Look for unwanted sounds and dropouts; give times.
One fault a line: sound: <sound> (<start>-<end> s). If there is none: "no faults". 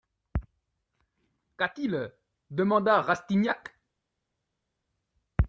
no faults